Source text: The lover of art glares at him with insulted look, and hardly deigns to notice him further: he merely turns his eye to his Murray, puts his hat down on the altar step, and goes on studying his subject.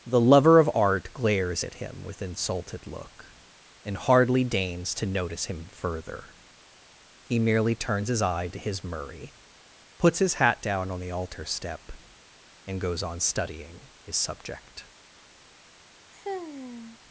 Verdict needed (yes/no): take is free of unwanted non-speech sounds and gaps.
no